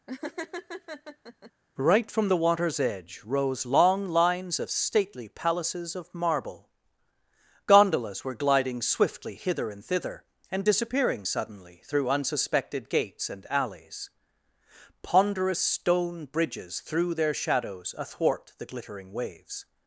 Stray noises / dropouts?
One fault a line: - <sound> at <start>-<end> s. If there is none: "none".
- laugh at 0.1-1.5 s